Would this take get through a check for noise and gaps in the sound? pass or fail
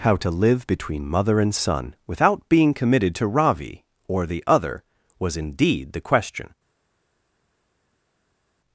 pass